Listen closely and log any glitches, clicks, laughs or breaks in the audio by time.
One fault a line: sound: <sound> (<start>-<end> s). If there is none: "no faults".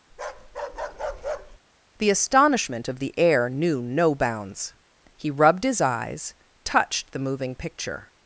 sound: bark (0.1-1.6 s)